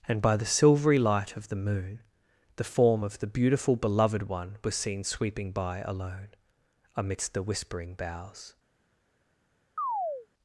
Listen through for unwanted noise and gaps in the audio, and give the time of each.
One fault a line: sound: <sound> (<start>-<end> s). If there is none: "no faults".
sound: chirp (9.8-10.3 s)